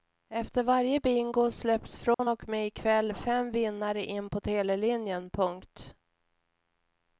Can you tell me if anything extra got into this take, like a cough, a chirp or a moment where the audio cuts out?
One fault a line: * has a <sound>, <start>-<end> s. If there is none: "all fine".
* has a dropout, 2.1-2.2 s